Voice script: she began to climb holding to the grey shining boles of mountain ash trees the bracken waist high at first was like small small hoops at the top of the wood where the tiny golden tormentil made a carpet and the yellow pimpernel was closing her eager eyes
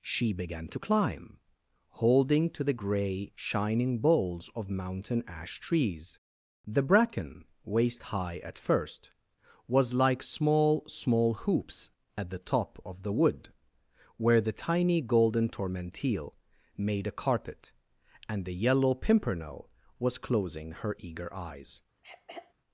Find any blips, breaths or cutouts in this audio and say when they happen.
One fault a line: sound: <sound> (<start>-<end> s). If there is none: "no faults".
sound: throat clearing (22.0-22.5 s)